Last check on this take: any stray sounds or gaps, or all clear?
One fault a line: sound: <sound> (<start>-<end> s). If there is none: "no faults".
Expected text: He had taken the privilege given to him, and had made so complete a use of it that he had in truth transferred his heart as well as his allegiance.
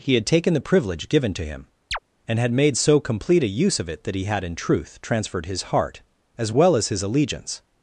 sound: chirp (1.9-2.0 s)